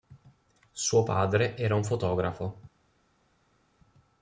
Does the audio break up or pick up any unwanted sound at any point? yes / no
no